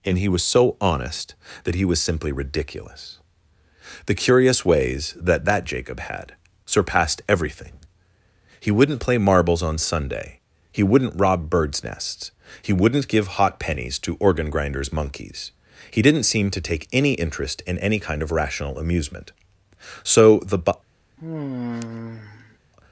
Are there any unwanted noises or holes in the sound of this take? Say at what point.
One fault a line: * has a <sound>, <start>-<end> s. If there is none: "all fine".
* has a sigh, 21.2-22.6 s